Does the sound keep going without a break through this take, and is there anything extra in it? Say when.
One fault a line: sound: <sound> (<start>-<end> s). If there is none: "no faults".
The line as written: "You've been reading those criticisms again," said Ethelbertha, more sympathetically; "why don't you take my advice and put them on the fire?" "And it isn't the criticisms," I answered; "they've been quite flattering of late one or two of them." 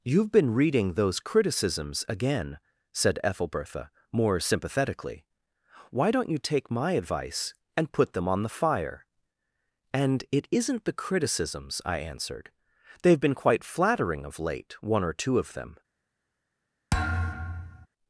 sound: thud (16.9-17.9 s)